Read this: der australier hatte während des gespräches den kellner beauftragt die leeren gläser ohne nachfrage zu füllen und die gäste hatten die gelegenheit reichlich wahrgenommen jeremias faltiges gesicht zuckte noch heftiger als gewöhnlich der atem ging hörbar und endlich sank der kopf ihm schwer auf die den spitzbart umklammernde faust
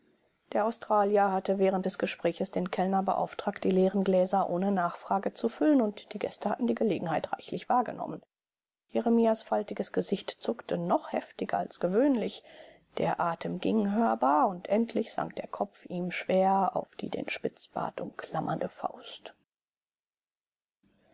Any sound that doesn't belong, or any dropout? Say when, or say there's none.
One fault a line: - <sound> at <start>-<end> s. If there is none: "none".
none